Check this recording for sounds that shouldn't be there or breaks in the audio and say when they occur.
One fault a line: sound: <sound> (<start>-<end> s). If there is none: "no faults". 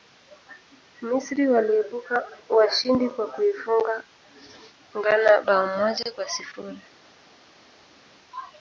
no faults